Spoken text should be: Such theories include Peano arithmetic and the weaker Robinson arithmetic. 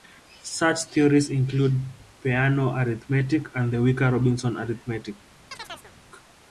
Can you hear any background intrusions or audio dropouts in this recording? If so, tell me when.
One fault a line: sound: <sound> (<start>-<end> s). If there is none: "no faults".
sound: chirp (5.5-5.9 s)